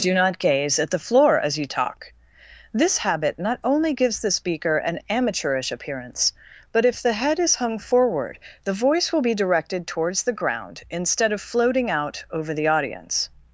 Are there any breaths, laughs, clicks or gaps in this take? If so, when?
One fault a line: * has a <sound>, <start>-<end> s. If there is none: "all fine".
all fine